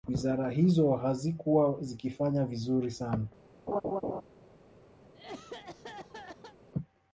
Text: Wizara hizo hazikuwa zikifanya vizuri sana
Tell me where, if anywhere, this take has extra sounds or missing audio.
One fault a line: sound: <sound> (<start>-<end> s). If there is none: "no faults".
sound: laugh (3.7-4.2 s)
sound: cough (5.0-6.6 s)